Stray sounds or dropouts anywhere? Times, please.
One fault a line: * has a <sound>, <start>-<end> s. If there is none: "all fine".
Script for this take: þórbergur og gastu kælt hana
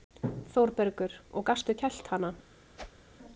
* has a whoosh, 2.8-3.1 s